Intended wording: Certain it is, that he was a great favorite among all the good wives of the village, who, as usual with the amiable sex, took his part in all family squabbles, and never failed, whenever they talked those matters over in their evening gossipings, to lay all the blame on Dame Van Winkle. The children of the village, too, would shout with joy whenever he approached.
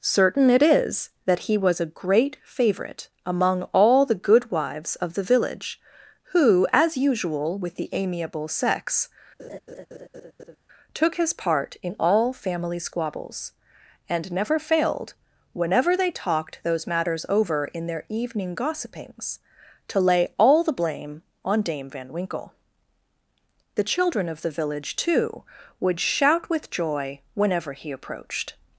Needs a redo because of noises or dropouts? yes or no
yes